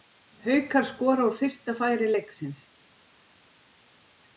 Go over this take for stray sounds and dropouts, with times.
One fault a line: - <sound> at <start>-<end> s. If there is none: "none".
none